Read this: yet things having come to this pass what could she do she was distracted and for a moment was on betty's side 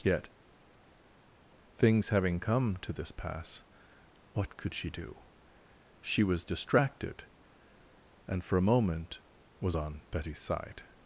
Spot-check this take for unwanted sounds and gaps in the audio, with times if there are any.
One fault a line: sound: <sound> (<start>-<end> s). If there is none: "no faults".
no faults